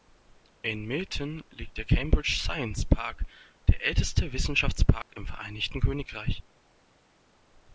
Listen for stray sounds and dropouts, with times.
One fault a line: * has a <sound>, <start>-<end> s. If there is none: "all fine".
* has a dropout, 5.0-5.1 s